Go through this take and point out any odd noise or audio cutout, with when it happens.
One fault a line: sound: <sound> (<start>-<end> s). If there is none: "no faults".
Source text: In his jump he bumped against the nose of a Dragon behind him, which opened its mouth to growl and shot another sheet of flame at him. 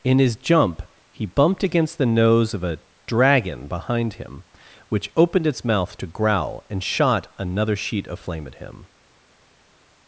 no faults